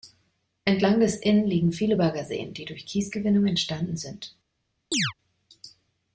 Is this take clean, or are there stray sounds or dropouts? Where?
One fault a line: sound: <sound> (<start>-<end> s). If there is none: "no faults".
sound: chirp (4.9-5.1 s)